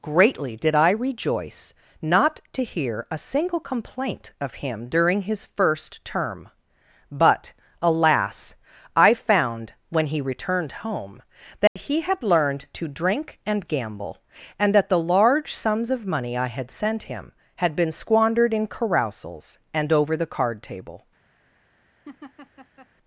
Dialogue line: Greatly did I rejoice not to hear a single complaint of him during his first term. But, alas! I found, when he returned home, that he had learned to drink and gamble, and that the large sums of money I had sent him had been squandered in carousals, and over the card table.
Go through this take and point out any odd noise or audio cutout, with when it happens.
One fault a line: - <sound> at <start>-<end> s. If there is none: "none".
- dropout at 11.7-11.8 s
- laugh at 22.1-22.9 s